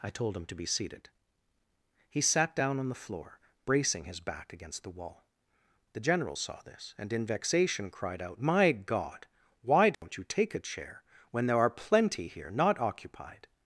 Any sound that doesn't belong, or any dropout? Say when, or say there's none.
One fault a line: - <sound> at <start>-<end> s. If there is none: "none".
- dropout at 9.9-10.0 s